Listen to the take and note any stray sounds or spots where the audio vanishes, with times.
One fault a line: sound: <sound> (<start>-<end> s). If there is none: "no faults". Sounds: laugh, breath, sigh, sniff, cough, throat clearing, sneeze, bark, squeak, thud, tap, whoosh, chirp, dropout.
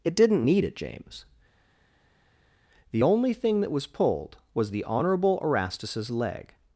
no faults